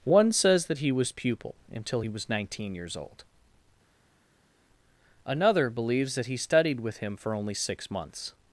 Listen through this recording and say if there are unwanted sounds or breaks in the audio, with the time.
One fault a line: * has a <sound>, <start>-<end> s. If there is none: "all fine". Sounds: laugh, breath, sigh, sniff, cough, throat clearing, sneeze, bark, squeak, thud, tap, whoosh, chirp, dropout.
all fine